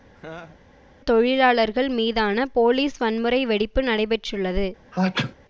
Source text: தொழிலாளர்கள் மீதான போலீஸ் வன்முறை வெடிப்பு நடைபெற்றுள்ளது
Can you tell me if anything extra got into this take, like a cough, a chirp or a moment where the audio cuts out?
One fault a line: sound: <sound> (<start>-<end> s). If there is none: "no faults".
sound: laugh (0.1-0.6 s)
sound: sneeze (4.9-5.3 s)